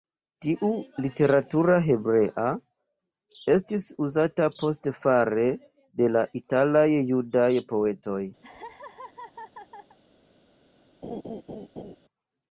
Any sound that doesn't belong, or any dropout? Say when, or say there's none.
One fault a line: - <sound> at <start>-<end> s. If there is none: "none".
- laugh at 8.4-10.0 s
- laugh at 11.0-12.0 s